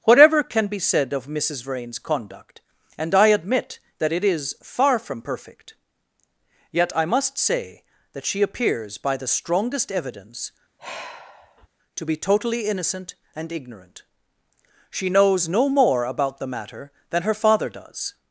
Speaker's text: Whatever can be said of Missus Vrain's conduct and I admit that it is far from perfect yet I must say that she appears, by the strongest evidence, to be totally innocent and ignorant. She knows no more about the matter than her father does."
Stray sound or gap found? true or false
true